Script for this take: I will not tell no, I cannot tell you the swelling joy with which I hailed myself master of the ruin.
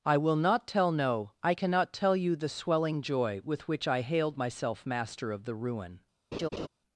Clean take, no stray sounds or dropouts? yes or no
no